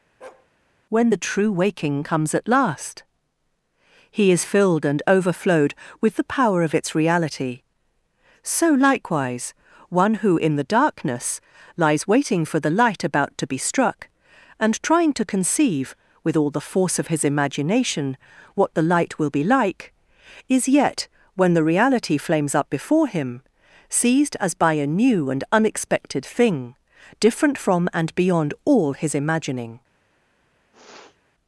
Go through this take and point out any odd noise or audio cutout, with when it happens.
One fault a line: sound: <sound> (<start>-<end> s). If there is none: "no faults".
sound: bark (0.2-0.5 s)
sound: sniff (30.7-31.2 s)